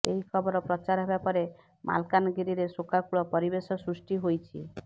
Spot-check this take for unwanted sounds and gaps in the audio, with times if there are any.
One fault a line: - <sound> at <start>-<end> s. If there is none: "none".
none